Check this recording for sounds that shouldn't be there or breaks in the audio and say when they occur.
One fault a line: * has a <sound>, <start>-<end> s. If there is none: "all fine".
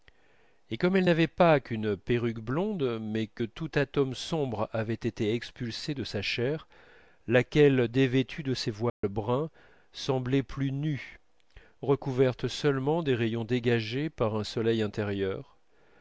* has a dropout, 8.9-9.0 s